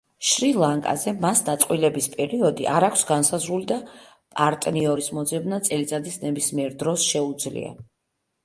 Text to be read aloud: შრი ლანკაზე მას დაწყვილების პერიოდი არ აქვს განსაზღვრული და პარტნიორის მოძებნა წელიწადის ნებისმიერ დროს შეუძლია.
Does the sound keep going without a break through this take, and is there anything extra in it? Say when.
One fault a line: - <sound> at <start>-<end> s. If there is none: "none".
none